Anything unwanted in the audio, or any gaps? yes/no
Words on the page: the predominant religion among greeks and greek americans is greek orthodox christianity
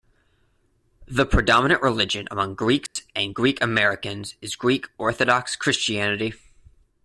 yes